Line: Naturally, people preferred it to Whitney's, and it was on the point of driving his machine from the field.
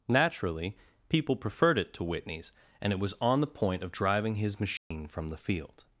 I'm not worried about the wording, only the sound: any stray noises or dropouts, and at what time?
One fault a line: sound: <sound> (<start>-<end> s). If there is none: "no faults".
sound: dropout (4.8-4.9 s)